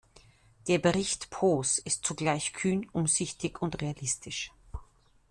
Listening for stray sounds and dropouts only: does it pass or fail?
pass